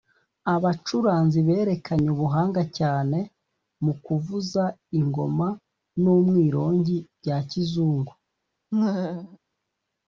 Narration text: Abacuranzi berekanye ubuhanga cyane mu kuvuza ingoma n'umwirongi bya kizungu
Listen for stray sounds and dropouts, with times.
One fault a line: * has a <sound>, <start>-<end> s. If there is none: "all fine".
* has a laugh, 8.7-9.4 s